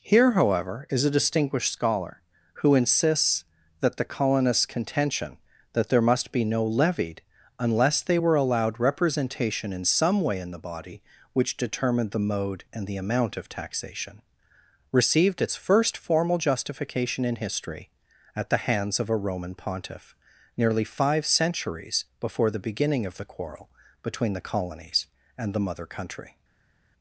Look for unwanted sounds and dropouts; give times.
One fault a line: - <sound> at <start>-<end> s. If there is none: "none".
none